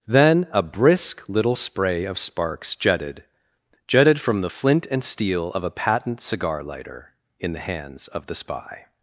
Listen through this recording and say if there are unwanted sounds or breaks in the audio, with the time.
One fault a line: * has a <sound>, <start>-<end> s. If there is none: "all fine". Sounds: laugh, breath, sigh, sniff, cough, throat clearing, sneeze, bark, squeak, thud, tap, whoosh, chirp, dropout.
all fine